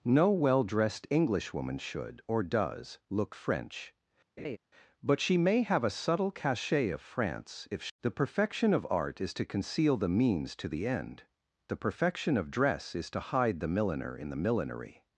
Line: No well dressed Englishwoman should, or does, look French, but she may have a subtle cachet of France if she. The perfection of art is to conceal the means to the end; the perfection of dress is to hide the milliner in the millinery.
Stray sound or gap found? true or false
true